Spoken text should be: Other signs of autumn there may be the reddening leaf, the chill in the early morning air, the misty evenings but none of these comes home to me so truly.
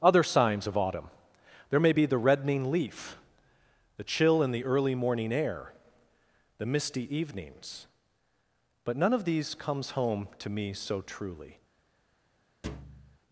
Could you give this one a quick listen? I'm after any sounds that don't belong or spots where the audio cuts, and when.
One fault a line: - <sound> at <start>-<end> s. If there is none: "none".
- thud at 12.6-13.2 s